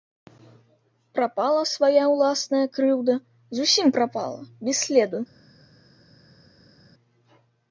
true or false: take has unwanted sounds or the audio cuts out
false